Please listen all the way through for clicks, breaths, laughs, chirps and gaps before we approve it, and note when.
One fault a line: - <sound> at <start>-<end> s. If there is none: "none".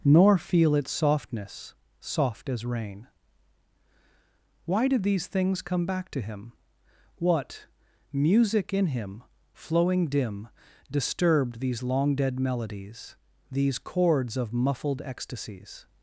none